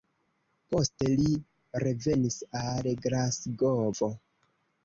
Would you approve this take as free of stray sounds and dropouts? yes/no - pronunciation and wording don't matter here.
yes